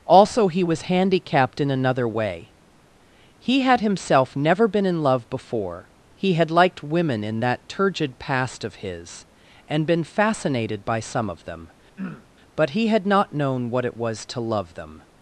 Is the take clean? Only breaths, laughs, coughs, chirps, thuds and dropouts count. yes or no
no